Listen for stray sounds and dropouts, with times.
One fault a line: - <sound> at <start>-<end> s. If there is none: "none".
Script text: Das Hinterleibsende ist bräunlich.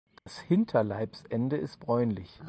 - dropout at 0.2-0.3 s